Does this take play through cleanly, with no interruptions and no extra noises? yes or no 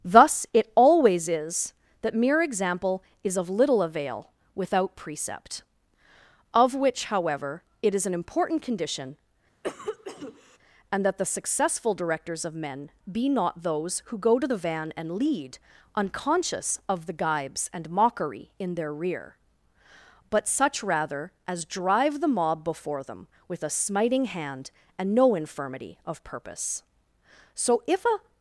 no